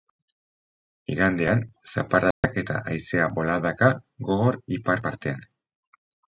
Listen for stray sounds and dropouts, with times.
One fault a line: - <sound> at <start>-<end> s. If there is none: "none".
- dropout at 2.3-2.4 s